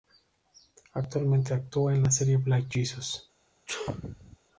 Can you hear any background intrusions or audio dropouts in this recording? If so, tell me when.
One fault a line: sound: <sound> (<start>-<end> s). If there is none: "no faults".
sound: sneeze (3.7-4.4 s)